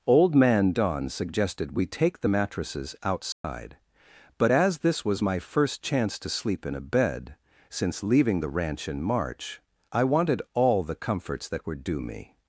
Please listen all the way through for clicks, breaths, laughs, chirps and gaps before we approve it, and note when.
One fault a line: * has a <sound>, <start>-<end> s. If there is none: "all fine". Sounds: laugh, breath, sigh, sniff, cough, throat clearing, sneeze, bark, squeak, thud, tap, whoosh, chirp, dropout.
* has a dropout, 3.3-3.4 s